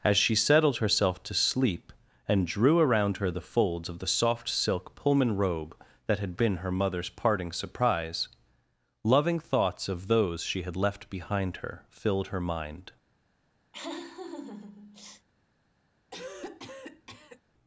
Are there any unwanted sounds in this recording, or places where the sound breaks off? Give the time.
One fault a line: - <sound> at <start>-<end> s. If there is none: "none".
- laugh at 13.7-15.3 s
- cough at 16.1-17.4 s